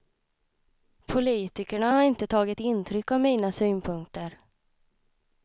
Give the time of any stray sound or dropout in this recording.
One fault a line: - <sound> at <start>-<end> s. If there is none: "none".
none